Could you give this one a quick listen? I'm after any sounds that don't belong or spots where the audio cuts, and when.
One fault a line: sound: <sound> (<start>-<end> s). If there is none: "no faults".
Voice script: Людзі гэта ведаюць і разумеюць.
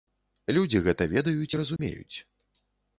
sound: dropout (1.8-1.8 s)